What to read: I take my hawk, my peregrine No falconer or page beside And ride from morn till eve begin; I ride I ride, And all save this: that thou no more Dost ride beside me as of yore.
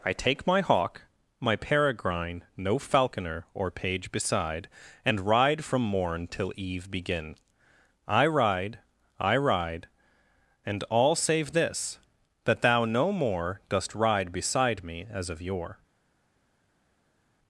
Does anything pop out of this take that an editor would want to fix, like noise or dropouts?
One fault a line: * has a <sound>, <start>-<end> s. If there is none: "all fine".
all fine